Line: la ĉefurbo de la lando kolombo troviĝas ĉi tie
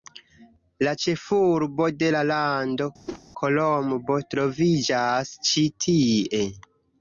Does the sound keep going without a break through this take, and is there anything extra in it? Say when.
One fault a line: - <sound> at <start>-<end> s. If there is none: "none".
- whoosh at 3.1-3.2 s